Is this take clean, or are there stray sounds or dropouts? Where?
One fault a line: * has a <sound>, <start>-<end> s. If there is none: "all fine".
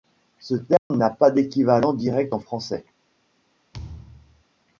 * has a dropout, 0.8-0.9 s
* has a thud, 3.7-4.4 s